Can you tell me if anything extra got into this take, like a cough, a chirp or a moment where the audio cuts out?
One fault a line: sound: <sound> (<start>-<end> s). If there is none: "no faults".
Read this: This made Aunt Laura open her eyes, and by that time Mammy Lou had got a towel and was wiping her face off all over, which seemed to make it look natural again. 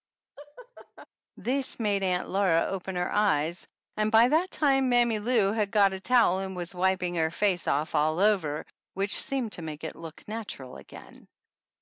sound: laugh (0.4-1.1 s)